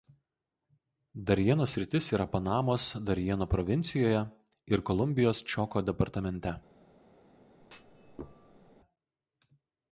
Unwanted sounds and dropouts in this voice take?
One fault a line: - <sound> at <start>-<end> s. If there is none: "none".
- thud at 7.6-8.8 s